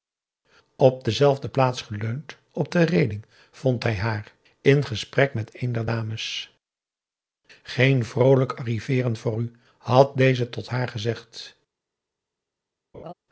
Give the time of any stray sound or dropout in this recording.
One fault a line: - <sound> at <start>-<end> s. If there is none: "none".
- laugh at 12.9-13.1 s